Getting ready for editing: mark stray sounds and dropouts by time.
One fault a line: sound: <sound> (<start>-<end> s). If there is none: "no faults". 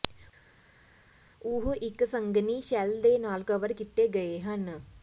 no faults